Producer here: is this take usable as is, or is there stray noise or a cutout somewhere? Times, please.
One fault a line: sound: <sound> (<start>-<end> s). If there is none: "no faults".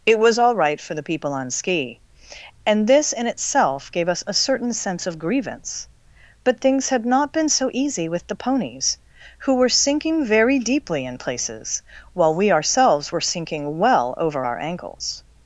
no faults